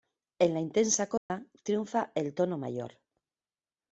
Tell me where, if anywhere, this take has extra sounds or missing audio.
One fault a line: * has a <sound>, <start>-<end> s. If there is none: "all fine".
* has a dropout, 1.2-1.3 s